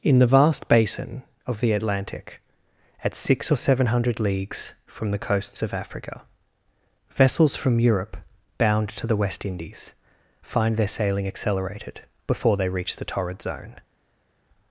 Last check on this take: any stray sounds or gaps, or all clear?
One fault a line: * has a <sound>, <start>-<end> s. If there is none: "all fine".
all fine